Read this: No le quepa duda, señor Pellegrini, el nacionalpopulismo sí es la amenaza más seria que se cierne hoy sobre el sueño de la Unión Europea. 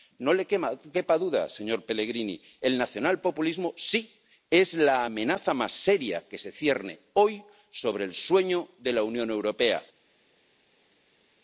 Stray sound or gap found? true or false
false